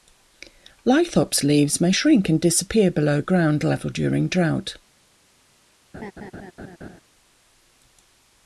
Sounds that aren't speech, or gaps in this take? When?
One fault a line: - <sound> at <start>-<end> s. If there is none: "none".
- laugh at 5.9-7.0 s